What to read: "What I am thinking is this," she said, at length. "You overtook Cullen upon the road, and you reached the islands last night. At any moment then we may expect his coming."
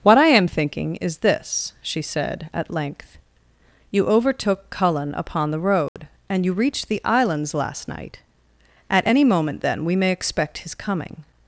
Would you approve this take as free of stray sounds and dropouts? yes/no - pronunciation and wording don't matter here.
no